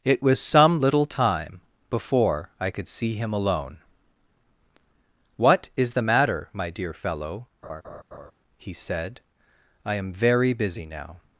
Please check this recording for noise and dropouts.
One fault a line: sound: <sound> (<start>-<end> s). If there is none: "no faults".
sound: laugh (7.6-8.3 s)